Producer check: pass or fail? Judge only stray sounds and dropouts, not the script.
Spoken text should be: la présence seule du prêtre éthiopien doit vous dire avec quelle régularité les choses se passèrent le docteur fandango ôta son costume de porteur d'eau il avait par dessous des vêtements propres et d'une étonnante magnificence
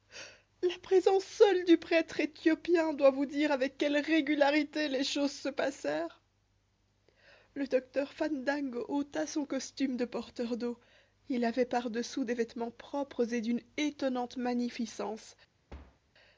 fail